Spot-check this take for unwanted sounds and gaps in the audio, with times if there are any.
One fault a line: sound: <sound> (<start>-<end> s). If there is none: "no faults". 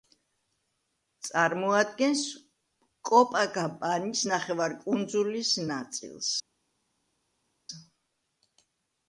no faults